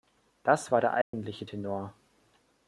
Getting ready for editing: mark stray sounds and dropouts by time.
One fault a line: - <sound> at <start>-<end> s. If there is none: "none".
- dropout at 1.0-1.1 s